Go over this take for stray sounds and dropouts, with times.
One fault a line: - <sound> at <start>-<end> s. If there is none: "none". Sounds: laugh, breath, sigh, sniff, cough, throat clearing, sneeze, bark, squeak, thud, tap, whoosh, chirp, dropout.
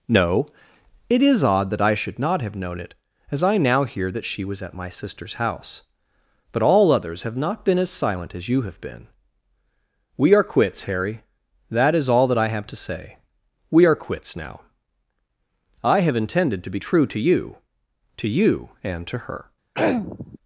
- throat clearing at 19.7-20.4 s